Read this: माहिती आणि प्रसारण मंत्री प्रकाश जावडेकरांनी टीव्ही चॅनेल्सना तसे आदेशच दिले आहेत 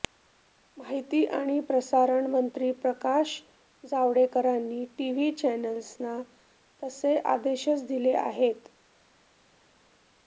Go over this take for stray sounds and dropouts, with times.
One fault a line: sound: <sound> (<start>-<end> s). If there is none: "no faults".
no faults